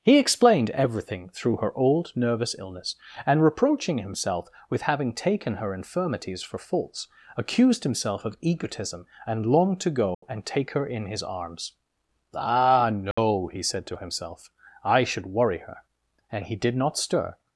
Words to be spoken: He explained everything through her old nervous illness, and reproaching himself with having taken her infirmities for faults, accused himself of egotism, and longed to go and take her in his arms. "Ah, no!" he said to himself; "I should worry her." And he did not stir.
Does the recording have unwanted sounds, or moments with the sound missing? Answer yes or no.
yes